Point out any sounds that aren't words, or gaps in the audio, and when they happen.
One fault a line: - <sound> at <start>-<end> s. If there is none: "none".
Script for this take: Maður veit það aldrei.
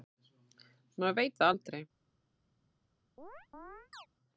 - chirp at 3.2-4.1 s